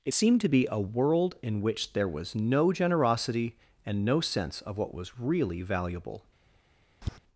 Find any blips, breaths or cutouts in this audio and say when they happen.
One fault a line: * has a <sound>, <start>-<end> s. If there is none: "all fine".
* has a tap, 7.0-7.2 s